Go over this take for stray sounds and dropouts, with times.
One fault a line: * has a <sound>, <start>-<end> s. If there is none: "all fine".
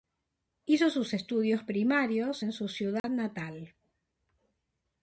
* has a dropout, 3.0-3.0 s